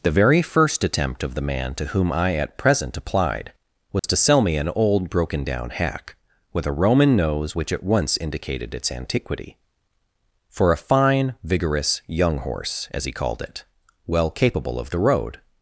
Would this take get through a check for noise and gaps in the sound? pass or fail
fail